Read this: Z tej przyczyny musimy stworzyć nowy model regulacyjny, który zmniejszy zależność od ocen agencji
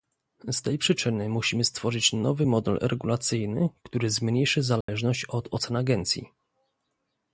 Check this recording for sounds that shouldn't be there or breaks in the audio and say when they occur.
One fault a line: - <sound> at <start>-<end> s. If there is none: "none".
- dropout at 4.8-4.9 s